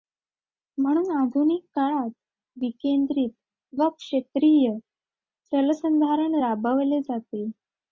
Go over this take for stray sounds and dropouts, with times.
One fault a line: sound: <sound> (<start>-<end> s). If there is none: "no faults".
no faults